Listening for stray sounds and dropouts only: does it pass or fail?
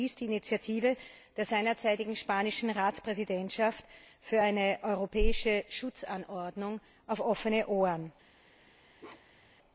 fail